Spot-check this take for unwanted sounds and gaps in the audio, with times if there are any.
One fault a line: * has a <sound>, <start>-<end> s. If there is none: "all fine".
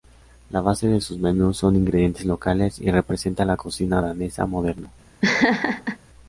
* has a laugh, 5.2-6.0 s